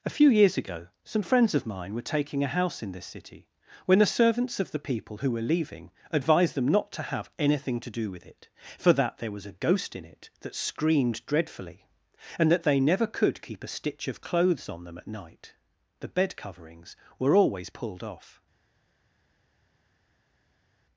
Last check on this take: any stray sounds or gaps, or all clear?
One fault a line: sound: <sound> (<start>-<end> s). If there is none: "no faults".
no faults